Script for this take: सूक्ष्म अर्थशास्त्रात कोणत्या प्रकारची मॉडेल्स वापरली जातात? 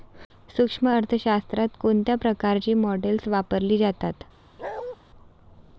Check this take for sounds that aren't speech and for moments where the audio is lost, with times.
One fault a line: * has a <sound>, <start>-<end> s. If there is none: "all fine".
* has a bark, 4.6-5.0 s